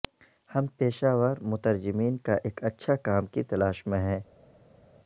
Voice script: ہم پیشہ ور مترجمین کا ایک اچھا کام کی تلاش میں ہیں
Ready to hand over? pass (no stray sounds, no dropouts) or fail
pass